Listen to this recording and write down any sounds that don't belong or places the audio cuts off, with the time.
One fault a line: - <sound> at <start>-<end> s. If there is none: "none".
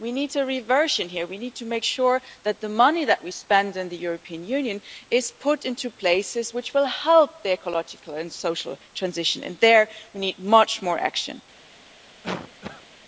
- cough at 12.2-12.9 s